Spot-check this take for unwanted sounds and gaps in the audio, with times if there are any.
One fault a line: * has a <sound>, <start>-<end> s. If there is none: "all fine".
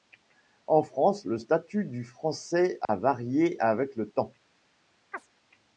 * has a dropout, 2.8-2.9 s
* has a chirp, 5.1-5.3 s